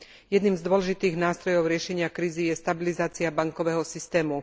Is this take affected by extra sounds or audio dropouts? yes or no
no